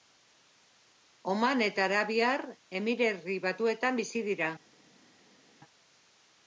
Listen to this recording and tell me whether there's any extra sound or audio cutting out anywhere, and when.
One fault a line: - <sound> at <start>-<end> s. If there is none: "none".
none